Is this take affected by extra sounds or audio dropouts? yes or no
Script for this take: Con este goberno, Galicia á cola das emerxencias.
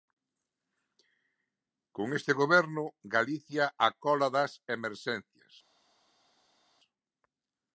no